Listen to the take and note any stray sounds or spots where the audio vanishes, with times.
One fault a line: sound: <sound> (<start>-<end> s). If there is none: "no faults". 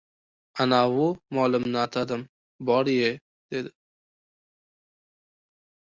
no faults